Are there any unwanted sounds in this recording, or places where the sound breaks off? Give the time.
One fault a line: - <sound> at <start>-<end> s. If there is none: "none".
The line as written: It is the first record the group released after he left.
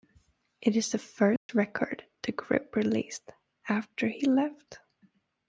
- dropout at 1.4-1.5 s